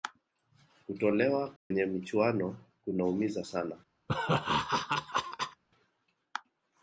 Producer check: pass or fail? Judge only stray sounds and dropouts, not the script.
fail